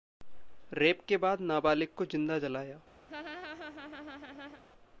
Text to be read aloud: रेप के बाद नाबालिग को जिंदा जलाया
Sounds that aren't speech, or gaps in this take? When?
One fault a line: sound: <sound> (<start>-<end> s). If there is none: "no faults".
sound: laugh (3.1-4.6 s)